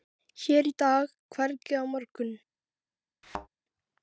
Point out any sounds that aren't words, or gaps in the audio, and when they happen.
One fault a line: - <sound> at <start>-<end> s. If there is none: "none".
- thud at 3.2-3.5 s